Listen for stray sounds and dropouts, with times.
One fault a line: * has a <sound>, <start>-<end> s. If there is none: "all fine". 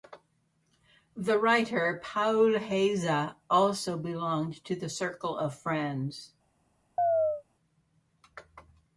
* has a chirp, 7.0-7.4 s